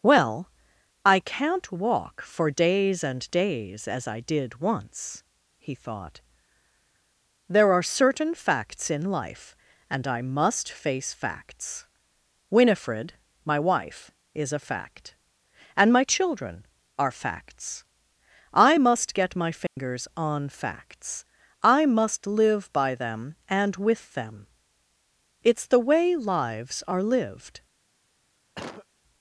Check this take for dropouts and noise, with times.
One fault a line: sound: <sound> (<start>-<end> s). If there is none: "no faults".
sound: dropout (19.7-19.8 s)
sound: cough (28.5-28.9 s)